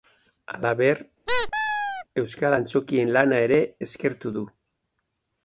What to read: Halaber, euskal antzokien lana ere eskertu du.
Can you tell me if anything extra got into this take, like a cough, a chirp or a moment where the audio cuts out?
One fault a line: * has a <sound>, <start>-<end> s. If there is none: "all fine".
* has a squeak, 1.3-2.0 s